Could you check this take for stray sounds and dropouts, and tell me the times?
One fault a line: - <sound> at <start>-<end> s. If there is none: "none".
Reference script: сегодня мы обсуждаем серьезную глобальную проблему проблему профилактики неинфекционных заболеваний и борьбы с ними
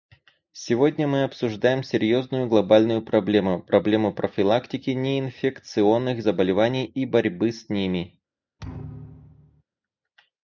- thud at 8.6-9.6 s